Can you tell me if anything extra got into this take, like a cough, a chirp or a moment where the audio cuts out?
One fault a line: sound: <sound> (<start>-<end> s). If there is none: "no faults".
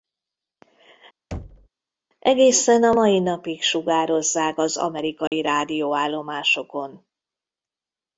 sound: thud (1.3-1.7 s)
sound: dropout (5.3-5.3 s)